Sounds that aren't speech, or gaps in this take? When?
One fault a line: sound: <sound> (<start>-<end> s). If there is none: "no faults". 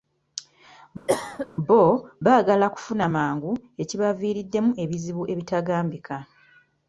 sound: cough (1.1-1.5 s)